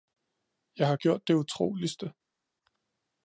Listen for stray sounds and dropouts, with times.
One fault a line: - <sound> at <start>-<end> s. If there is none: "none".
none